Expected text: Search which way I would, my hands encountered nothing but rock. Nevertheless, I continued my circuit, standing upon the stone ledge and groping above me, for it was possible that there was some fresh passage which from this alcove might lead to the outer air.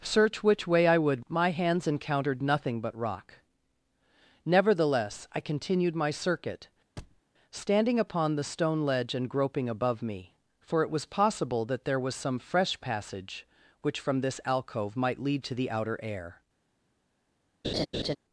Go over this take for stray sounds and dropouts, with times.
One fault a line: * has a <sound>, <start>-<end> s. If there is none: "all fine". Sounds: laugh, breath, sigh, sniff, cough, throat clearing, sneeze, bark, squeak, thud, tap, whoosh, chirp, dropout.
* has a thud, 7.0-7.2 s
* has a laugh, 17.6-18.2 s